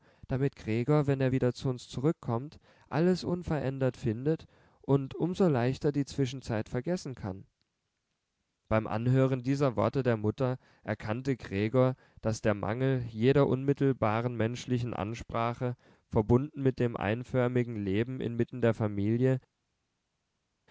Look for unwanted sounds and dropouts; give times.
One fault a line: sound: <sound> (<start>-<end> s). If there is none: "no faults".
no faults